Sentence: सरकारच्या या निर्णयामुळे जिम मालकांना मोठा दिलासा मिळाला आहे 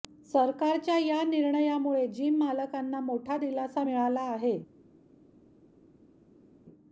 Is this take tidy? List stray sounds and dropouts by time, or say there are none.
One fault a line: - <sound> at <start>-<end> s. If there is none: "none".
none